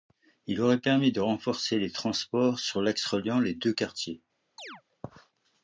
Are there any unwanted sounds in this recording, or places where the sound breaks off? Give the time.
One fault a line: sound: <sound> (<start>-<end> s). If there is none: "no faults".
sound: chirp (4.6-4.8 s)